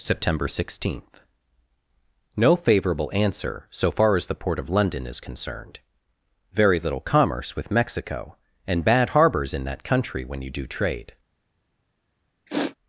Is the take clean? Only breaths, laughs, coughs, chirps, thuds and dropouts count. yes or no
no